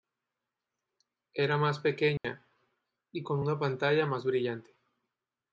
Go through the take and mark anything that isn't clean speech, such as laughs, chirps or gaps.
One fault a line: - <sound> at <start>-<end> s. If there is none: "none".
- dropout at 2.2-2.2 s